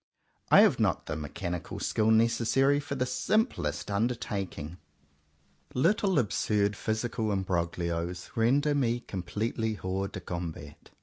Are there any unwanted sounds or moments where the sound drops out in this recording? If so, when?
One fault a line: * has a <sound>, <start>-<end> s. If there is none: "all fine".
all fine